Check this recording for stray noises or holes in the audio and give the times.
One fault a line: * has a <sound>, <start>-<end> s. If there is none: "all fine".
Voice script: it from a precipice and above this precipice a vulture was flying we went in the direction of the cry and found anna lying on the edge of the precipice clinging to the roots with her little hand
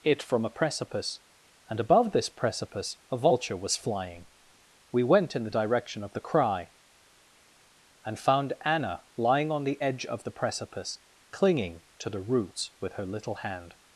all fine